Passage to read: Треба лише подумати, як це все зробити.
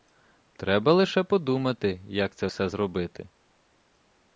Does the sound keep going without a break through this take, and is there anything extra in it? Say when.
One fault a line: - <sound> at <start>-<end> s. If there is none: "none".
none